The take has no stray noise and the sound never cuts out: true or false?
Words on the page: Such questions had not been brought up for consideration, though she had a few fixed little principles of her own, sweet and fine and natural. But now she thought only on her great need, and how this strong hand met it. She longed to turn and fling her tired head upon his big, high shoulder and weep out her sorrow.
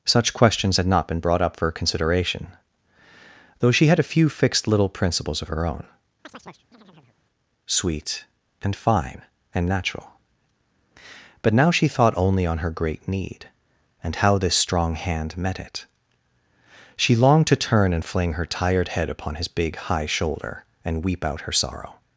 false